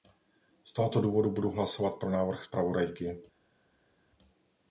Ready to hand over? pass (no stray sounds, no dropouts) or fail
pass